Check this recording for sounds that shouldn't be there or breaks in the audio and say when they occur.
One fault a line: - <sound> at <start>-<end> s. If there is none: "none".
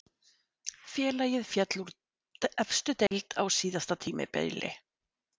- dropout at 3.1-3.1 s